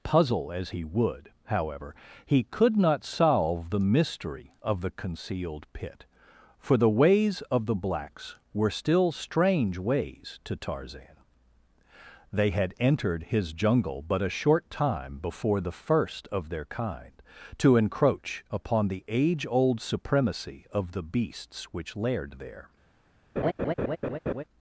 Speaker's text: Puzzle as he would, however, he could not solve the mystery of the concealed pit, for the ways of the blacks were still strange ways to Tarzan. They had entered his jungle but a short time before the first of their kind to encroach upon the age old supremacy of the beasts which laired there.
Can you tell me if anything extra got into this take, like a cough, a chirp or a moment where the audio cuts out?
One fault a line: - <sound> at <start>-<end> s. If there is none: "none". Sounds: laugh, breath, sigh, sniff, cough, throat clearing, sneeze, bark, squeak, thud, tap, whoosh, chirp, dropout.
- laugh at 23.4-24.4 s